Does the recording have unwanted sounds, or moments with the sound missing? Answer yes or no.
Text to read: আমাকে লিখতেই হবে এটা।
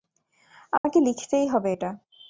yes